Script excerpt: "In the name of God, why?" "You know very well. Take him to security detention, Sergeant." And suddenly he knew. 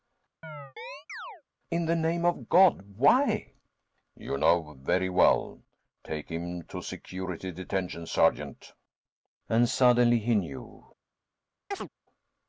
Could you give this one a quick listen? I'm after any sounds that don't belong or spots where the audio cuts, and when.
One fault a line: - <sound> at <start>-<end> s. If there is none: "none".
- chirp at 0.4-1.4 s
- chirp at 11.7-11.9 s